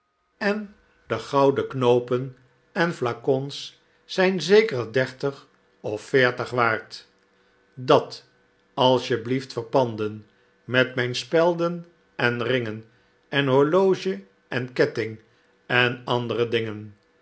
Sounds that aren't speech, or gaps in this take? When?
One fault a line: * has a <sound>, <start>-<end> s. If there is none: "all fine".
all fine